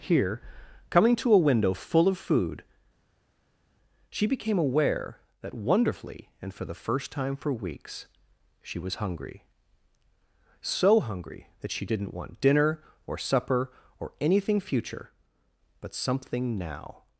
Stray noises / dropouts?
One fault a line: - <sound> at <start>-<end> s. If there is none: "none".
none